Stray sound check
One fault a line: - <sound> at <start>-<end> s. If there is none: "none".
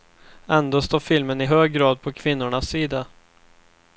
none